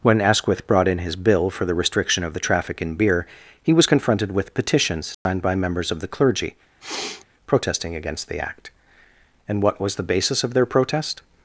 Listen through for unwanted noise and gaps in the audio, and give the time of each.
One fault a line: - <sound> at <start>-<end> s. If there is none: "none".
- dropout at 5.1-5.3 s
- sniff at 6.8-7.3 s